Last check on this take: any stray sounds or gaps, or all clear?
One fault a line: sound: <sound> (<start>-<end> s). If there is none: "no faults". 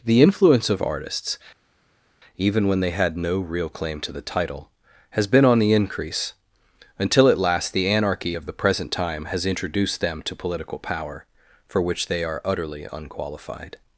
no faults